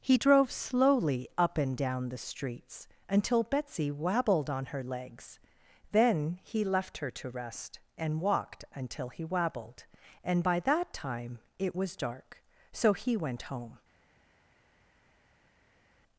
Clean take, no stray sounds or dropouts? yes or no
yes